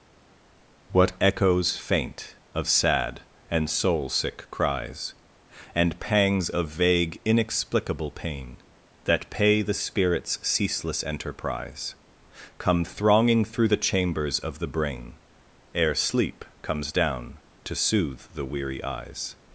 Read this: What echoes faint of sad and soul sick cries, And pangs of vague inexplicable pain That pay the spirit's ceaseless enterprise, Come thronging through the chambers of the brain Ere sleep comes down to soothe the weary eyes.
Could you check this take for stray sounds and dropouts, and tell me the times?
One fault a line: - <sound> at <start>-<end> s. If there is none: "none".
none